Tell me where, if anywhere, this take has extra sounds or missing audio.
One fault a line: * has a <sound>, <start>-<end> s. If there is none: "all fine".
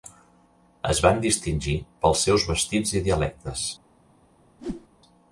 * has a whoosh, 4.6-4.9 s